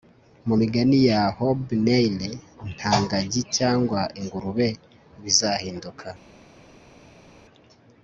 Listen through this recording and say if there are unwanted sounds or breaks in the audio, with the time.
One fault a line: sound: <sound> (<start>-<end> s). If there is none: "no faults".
no faults